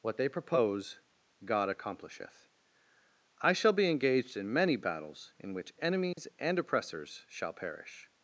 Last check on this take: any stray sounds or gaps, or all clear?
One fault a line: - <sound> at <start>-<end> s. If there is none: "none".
- dropout at 6.1-6.2 s